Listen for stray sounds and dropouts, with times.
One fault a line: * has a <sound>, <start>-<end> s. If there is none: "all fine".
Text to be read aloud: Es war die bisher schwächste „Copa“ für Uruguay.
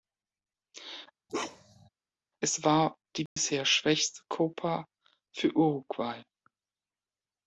* has a bark, 1.3-1.9 s
* has a dropout, 3.3-3.4 s